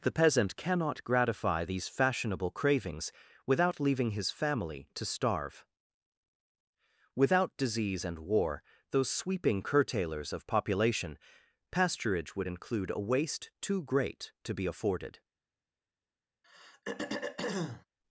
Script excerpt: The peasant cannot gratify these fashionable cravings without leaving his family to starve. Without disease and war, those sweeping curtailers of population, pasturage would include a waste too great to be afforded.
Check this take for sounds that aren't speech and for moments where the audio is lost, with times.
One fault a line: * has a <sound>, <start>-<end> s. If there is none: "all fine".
* has a throat clearing, 16.4-17.9 s